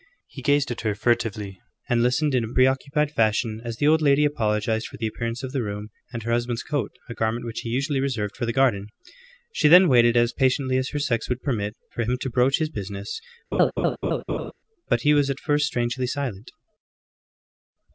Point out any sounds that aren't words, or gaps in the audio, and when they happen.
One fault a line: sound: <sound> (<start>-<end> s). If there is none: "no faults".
sound: laugh (13.5-14.5 s)